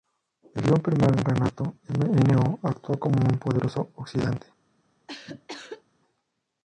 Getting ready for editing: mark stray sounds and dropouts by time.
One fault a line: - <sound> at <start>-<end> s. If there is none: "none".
- cough at 5.1-5.8 s